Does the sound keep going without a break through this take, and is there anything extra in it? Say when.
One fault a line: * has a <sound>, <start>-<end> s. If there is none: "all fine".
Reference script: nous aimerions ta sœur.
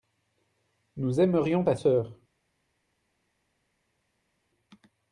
all fine